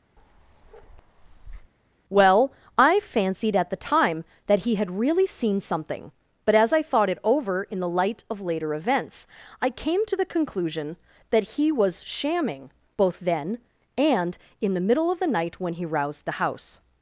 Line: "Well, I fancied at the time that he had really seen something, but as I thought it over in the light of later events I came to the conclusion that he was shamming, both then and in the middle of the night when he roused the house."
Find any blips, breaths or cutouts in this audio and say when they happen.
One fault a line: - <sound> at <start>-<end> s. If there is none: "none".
- bark at 0.2-1.7 s